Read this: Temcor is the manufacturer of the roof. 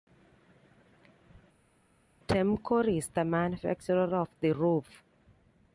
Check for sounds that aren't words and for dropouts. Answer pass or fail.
pass